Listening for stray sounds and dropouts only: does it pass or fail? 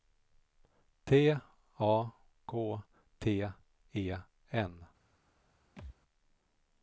fail